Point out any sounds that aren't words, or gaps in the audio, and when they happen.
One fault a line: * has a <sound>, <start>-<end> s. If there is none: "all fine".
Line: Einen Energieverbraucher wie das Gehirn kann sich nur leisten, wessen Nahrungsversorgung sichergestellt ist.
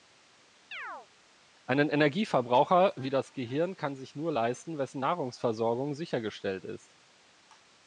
* has a chirp, 0.7-1.1 s